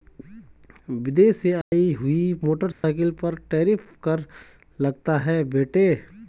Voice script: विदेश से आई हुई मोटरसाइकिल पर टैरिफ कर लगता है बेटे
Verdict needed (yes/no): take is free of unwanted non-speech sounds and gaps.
no